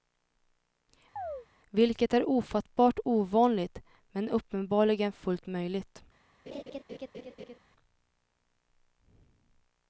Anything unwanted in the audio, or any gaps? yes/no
yes